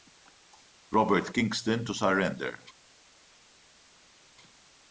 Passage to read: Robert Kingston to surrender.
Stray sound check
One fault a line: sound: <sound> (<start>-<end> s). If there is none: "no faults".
no faults